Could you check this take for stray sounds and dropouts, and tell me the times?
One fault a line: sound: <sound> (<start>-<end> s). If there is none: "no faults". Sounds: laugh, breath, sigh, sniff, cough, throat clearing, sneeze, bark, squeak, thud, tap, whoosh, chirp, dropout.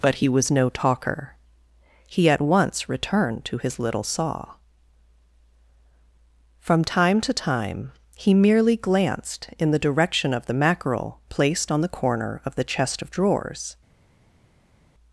no faults